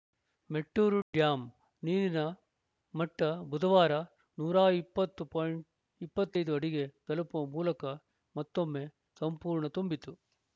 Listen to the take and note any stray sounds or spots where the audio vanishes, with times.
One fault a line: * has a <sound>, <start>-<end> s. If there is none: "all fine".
all fine